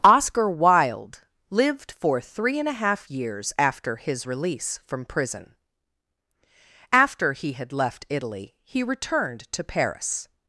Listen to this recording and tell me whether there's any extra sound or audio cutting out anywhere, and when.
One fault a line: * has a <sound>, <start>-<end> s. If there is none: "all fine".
all fine